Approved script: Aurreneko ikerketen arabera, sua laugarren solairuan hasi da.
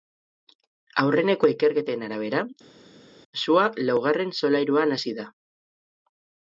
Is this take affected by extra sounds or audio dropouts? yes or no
no